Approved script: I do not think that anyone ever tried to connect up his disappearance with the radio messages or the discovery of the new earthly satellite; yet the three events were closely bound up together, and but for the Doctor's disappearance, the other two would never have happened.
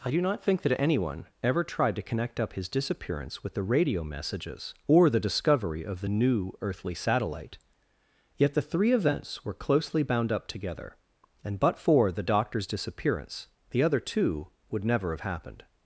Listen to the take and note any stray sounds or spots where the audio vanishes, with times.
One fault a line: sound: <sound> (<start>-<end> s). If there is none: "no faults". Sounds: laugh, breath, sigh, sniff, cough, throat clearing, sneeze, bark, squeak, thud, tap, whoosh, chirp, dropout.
no faults